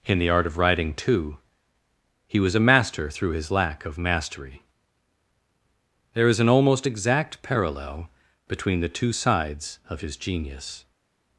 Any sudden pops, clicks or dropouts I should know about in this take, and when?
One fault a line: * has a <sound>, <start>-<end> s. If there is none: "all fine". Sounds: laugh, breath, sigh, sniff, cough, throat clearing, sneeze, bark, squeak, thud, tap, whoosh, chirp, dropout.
all fine